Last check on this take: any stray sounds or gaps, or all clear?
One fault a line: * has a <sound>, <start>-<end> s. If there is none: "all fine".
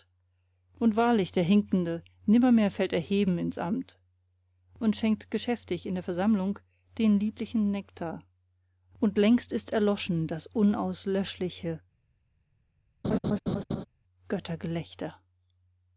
* has a laugh, 13.0-13.8 s